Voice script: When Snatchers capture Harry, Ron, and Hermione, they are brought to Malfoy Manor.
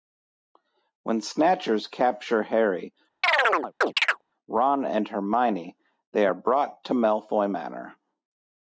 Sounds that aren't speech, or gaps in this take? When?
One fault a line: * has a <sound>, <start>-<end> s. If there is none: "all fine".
* has a chirp, 3.2-4.2 s